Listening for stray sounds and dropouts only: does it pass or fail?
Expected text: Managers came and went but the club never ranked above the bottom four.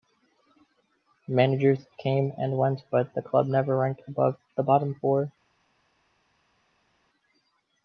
pass